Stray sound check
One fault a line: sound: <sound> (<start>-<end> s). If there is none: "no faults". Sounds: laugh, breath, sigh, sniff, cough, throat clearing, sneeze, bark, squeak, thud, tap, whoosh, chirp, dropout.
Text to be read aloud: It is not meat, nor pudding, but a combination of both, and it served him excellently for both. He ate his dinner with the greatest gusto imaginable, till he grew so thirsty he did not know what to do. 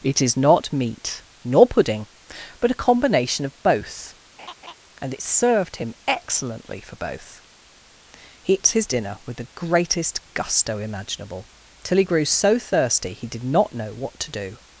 sound: laugh (4.4-4.7 s)